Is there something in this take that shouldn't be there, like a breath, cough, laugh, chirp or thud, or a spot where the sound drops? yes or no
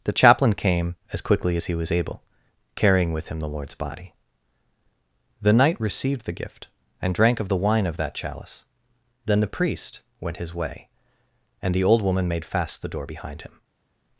no